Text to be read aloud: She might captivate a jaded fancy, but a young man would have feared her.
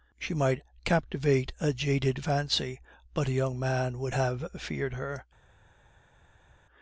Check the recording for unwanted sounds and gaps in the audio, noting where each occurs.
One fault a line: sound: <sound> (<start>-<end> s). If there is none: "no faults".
no faults